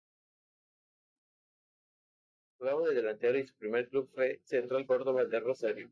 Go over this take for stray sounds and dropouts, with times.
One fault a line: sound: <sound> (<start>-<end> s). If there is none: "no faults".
no faults